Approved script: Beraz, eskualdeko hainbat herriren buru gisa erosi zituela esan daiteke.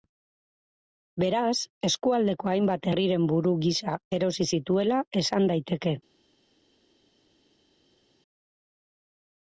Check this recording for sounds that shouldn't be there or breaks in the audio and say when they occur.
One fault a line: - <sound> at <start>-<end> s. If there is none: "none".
none